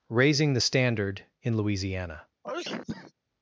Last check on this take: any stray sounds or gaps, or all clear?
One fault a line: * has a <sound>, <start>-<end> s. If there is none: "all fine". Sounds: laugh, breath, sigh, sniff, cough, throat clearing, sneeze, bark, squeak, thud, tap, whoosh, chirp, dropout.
* has a sneeze, 2.4-3.1 s